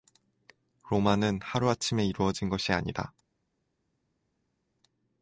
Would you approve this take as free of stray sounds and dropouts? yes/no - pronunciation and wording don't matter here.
yes